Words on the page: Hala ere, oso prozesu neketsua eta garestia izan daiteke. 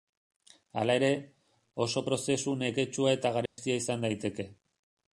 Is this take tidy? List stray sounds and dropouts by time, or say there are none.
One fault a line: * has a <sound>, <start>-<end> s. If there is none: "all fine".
* has a dropout, 3.5-3.6 s